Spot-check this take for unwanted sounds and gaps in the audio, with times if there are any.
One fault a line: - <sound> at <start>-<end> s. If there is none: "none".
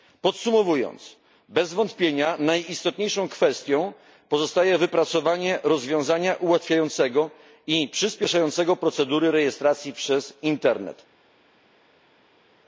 none